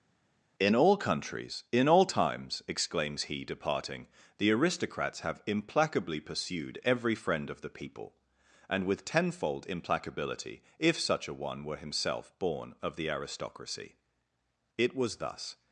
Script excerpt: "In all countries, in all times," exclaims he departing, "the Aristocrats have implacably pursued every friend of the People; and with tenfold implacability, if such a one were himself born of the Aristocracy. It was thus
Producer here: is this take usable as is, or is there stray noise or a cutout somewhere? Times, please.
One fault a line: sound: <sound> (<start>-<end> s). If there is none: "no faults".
no faults